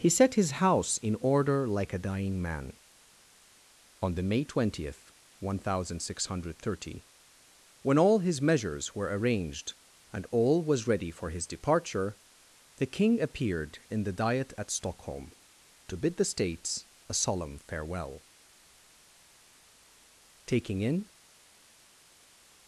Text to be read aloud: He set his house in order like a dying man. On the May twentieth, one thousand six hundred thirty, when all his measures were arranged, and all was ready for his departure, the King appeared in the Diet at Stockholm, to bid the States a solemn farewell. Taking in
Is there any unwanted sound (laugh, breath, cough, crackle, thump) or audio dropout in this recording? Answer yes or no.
no